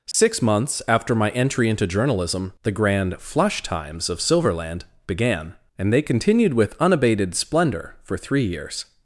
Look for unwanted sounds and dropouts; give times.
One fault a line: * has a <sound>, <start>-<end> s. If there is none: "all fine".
* has a dropout, 0.1-0.1 s